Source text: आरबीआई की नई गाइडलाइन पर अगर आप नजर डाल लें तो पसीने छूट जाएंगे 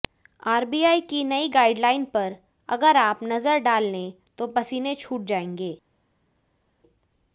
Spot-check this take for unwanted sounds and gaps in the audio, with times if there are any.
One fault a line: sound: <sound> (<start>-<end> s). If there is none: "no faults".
no faults